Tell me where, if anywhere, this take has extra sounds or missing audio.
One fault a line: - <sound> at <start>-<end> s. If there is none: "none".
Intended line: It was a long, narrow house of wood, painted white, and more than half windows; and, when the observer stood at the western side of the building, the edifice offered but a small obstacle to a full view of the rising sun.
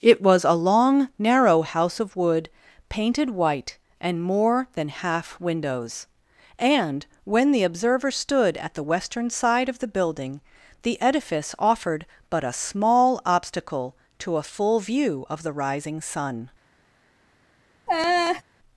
- laugh at 17.9-18.4 s